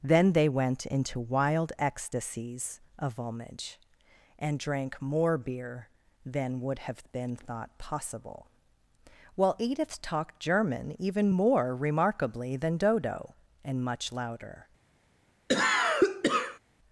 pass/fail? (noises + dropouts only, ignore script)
fail